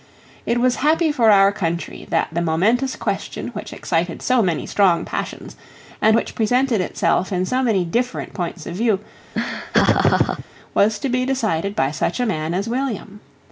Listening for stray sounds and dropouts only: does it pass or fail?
fail